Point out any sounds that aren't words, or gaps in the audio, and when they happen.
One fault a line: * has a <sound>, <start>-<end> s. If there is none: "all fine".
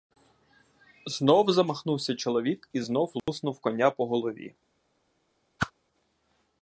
* has a dropout, 3.2-3.3 s
* has a whoosh, 5.6-5.7 s